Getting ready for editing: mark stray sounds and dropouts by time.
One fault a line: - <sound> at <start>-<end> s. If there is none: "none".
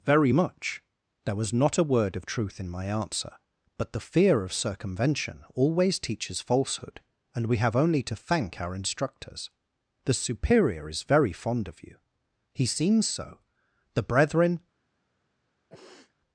- sniff at 15.7-16.1 s